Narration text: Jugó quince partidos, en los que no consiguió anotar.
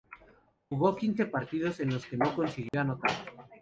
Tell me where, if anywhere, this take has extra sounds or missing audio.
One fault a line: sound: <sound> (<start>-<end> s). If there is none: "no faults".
sound: dropout (2.7-2.7 s)